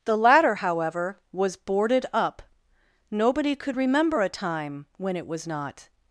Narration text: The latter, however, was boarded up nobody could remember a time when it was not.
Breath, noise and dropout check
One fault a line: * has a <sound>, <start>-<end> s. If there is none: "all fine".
all fine